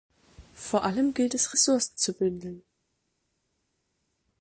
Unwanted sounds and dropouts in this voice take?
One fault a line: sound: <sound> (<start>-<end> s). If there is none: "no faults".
no faults